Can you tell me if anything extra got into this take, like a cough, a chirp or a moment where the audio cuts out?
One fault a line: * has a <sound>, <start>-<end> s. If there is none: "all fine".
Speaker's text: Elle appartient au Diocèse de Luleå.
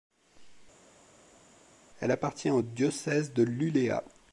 all fine